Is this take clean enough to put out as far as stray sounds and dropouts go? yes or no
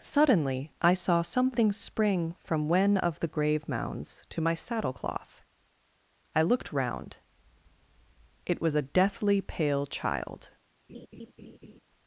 no